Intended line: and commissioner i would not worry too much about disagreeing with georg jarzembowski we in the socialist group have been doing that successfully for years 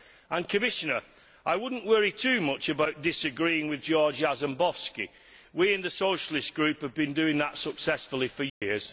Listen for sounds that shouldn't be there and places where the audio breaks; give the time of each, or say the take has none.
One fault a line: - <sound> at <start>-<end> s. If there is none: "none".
- dropout at 8.5-8.6 s